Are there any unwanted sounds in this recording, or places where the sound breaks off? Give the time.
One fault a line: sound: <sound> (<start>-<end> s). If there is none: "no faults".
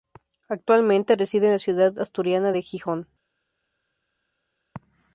no faults